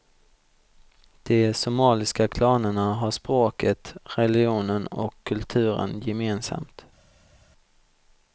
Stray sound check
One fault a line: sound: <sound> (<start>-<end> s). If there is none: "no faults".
no faults